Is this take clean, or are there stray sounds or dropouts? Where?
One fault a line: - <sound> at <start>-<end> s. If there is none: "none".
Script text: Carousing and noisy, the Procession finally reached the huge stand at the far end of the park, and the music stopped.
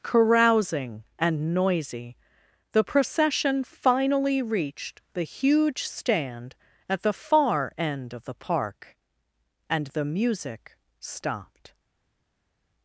none